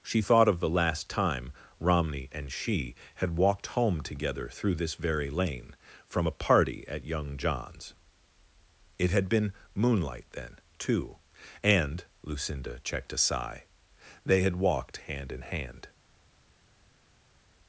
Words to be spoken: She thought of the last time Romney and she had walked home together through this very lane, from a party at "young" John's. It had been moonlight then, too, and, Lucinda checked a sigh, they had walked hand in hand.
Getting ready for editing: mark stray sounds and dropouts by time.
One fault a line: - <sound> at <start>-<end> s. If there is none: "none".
none